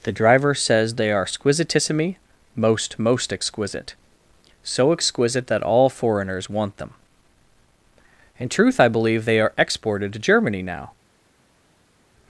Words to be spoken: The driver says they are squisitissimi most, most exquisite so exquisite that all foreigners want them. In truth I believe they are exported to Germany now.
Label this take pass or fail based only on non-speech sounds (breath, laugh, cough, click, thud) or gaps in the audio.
pass